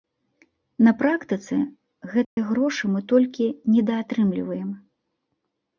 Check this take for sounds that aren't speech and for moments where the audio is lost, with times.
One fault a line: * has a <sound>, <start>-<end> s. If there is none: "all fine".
* has a dropout, 2.2-2.4 s